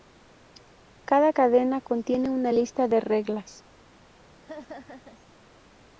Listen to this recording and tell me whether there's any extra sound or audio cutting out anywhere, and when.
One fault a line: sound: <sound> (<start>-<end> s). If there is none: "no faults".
sound: laugh (4.4-5.2 s)